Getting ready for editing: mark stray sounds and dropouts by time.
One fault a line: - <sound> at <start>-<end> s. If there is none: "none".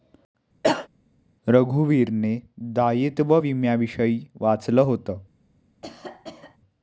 - cough at 0.6-0.9 s
- cough at 5.8-6.6 s